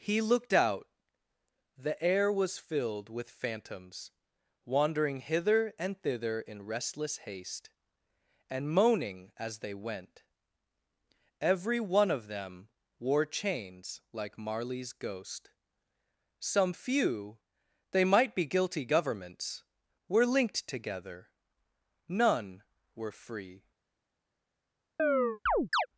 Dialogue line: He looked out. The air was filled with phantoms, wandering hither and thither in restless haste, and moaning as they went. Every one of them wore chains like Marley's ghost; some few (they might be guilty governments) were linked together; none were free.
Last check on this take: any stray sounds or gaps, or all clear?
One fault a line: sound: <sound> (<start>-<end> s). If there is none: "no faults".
sound: chirp (25.0-25.9 s)